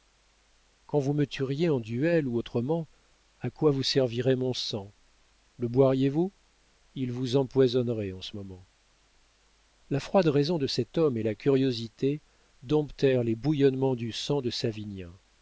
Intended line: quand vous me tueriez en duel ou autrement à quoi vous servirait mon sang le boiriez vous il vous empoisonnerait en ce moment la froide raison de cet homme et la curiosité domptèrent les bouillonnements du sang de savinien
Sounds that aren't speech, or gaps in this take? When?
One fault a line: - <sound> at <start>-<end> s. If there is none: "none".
none